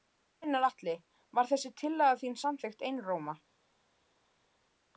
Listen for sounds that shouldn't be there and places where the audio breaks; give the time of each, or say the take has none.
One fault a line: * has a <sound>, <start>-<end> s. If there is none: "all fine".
all fine